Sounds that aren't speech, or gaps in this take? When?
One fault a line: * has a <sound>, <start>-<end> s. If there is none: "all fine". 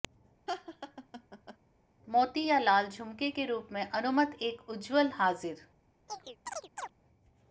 * has a laugh, 0.5-1.6 s
* has a chirp, 6.1-6.9 s